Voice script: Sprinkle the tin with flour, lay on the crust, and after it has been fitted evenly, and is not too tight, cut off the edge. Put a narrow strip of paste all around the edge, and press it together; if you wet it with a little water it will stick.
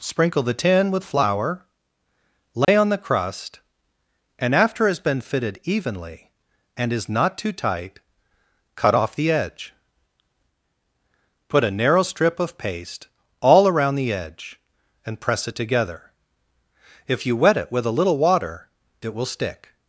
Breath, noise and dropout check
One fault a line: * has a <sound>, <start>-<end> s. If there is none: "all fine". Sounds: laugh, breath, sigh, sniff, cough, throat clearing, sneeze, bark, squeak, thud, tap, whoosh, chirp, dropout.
* has a dropout, 2.6-2.7 s